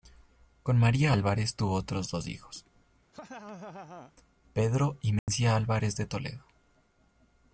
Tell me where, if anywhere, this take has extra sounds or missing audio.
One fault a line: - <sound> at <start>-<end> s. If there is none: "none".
- laugh at 3.1-4.1 s
- dropout at 5.2-5.3 s